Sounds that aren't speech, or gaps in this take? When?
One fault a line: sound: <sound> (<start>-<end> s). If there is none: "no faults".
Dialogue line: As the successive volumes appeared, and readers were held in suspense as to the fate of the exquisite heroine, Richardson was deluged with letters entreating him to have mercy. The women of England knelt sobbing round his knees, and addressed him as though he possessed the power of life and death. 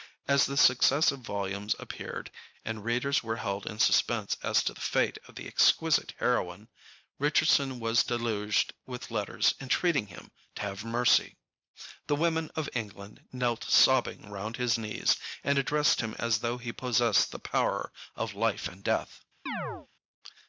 sound: chirp (19.5-19.9 s)